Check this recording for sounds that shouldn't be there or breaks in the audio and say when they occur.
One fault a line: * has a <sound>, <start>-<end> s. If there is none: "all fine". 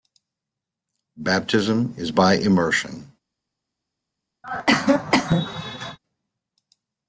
* has a cough, 4.4-6.0 s